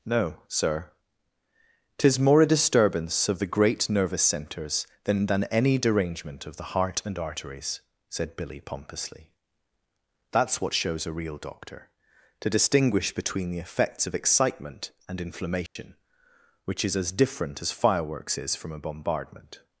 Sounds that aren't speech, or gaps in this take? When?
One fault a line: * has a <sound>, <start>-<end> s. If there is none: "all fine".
* has a dropout, 15.7-15.8 s